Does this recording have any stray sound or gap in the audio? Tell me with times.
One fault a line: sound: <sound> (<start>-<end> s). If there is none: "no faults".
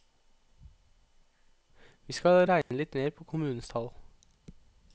sound: dropout (2.6-2.7 s)